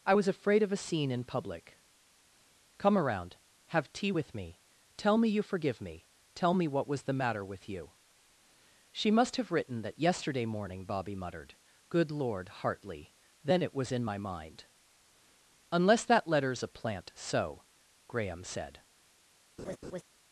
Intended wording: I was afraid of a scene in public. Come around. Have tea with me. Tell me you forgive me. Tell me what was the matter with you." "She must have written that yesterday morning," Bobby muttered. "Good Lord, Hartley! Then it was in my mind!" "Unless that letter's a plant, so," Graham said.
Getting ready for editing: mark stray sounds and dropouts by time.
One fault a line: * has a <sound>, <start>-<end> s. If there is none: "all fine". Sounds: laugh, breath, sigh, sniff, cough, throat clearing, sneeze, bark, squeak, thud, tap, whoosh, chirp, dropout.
* has a laugh, 19.6-20.0 s